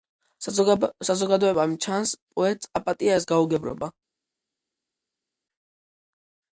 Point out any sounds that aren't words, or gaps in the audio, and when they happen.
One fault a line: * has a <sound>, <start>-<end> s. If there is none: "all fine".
all fine